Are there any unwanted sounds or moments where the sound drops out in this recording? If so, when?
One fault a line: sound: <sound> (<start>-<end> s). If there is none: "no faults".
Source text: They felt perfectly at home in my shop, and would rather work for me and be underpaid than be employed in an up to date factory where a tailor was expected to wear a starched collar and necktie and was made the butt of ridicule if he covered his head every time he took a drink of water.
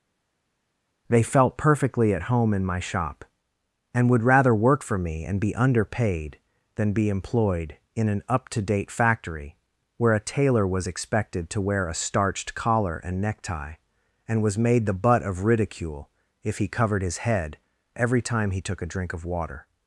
no faults